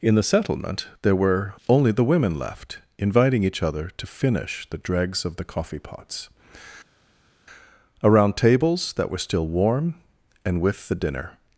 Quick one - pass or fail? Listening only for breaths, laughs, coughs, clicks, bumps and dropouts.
pass